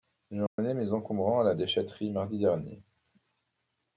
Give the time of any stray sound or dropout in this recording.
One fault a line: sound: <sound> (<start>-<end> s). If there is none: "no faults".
sound: dropout (0.5-0.6 s)